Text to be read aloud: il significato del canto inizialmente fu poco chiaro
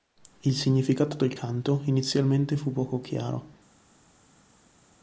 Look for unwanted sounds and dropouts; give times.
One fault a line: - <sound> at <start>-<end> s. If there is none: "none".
none